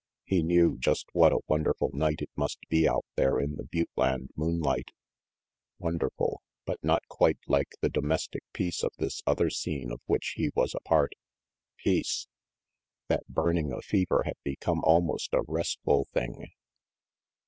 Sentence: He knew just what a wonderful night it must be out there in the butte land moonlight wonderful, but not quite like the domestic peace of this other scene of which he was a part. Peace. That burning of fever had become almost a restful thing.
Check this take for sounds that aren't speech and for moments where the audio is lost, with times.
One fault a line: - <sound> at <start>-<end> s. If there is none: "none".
none